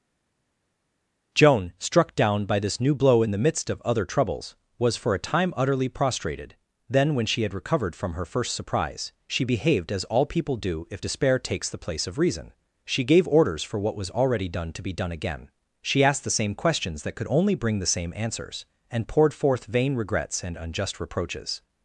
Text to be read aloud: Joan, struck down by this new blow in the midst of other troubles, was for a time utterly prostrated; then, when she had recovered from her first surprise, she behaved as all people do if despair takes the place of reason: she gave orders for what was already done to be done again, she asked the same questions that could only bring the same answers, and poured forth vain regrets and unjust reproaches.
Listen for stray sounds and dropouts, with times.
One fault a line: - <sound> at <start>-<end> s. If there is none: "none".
none